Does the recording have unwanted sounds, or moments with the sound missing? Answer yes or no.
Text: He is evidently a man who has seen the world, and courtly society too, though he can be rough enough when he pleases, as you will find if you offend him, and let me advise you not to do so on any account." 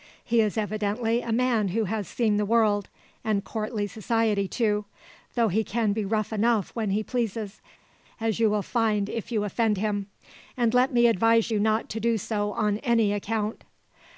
no